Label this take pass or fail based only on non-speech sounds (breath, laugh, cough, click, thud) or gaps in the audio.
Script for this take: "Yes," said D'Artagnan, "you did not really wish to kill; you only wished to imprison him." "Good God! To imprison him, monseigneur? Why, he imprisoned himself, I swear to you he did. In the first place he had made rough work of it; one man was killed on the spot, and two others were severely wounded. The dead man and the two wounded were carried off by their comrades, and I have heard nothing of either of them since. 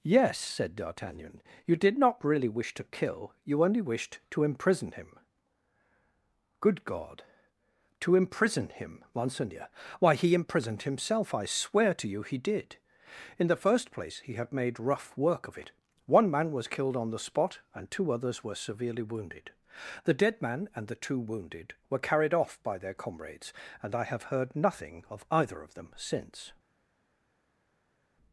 pass